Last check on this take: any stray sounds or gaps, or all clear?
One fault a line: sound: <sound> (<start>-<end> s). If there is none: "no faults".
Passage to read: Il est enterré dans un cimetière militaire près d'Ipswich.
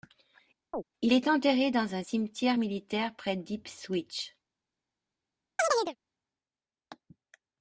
sound: chirp (0.7-0.8 s)
sound: chirp (5.6-6.0 s)